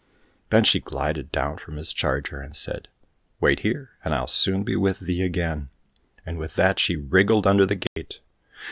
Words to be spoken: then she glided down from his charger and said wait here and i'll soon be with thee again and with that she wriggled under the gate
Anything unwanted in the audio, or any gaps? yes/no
yes